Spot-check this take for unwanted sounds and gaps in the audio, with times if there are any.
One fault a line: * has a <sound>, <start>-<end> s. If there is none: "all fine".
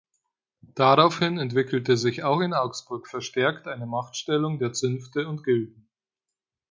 all fine